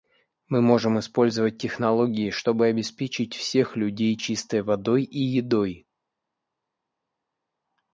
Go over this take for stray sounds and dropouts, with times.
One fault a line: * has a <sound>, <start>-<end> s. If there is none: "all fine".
all fine